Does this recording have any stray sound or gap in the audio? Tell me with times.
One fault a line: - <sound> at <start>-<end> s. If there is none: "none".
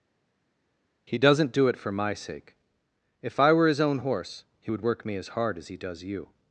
none